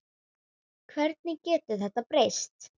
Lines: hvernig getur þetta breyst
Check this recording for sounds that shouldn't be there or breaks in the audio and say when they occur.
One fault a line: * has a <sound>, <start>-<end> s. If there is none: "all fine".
all fine